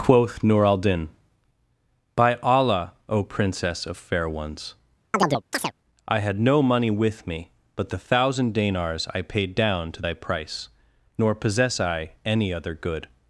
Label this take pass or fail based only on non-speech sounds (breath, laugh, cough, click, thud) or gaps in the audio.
fail